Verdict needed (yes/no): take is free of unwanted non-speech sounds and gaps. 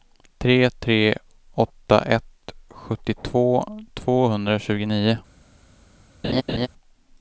no